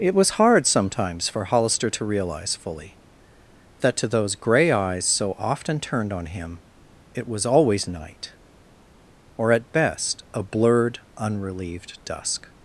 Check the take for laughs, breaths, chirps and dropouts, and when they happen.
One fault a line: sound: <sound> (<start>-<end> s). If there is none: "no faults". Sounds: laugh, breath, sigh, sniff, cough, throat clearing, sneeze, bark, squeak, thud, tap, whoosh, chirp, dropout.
no faults